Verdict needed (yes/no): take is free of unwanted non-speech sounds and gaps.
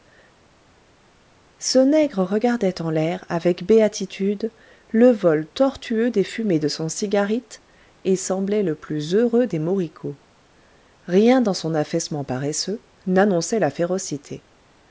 yes